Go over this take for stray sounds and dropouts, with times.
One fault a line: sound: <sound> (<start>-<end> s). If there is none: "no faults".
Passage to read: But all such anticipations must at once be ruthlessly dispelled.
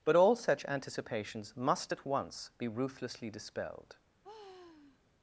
sound: sigh (4.2-5.0 s)